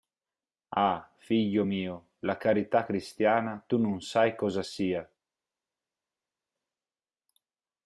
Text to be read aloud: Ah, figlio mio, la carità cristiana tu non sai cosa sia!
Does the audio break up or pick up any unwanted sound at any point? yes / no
no